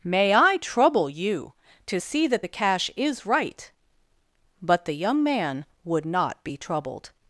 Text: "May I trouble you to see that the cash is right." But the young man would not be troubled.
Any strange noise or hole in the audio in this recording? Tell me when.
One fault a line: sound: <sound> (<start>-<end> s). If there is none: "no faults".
no faults